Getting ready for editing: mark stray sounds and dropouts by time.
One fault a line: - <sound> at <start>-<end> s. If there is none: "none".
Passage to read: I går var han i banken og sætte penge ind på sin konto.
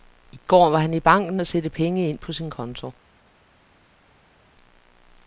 none